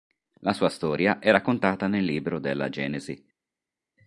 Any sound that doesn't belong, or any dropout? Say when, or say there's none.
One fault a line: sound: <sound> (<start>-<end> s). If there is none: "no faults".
no faults